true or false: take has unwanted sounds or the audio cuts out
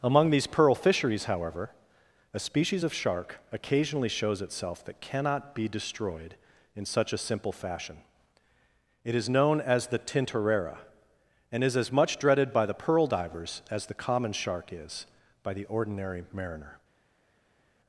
false